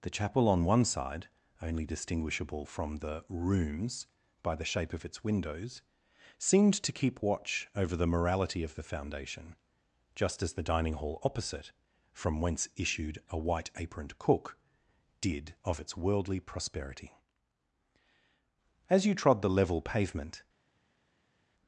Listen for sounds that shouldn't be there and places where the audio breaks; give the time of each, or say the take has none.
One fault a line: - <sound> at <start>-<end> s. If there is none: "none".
none